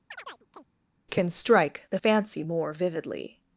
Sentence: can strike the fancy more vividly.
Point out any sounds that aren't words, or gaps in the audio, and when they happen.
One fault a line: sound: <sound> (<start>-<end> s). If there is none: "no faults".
sound: chirp (0.1-0.7 s)